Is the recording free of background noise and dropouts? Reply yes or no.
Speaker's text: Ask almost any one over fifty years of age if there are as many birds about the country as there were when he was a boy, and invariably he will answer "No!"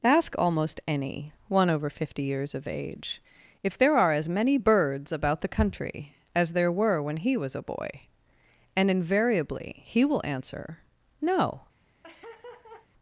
no